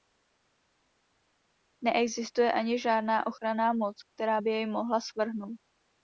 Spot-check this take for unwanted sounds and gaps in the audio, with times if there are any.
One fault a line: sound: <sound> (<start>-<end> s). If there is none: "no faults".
no faults